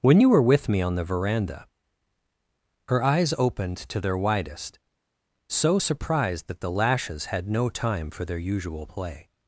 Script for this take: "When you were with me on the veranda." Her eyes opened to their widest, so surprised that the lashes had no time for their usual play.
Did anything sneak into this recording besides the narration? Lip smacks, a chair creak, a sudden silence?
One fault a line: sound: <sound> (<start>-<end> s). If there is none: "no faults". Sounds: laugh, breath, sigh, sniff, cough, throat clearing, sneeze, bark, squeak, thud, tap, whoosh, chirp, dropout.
no faults